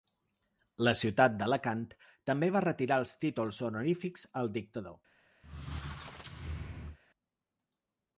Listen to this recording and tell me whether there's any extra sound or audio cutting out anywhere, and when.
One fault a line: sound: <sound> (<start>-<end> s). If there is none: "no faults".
sound: squeak (5.4-7.0 s)